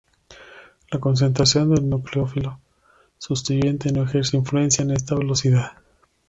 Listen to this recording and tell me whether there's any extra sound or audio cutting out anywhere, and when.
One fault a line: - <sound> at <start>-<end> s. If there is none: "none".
none